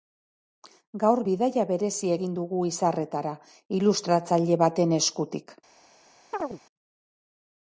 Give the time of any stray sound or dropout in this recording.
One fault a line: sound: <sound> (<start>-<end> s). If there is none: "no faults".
sound: chirp (6.3-6.6 s)